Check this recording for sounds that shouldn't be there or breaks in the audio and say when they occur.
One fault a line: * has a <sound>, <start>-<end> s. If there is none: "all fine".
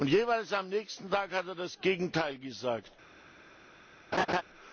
* has a laugh, 4.1-4.4 s